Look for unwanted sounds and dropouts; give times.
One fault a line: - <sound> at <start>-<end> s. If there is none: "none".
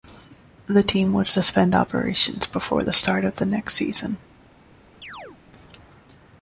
- chirp at 5.0-5.4 s